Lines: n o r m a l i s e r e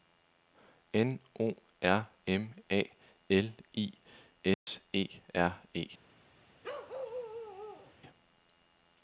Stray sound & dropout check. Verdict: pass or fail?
fail